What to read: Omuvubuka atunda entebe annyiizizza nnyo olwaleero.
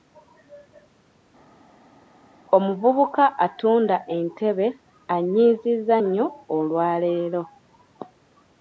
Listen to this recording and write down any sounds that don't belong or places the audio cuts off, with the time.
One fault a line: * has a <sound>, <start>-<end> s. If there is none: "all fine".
all fine